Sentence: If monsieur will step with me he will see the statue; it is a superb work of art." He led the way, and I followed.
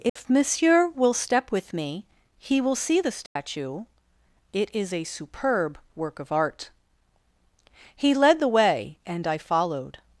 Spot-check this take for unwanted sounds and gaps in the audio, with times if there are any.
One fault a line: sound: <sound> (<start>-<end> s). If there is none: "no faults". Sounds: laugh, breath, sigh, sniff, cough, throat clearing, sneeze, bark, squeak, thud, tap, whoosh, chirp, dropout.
sound: dropout (0.1-0.2 s)
sound: dropout (3.3-3.4 s)